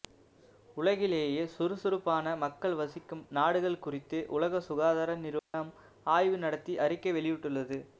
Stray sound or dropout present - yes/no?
yes